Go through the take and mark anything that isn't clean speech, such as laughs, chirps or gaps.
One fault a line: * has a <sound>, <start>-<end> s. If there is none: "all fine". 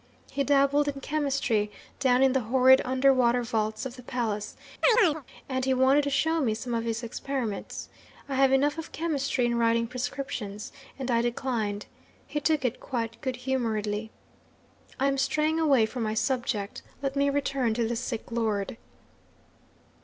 * has a chirp, 4.8-5.2 s